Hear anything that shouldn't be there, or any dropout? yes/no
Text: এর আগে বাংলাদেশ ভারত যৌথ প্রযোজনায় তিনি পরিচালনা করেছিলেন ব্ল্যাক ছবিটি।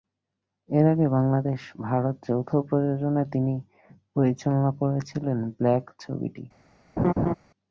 yes